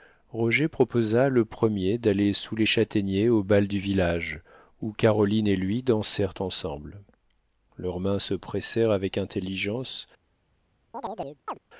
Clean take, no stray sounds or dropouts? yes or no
no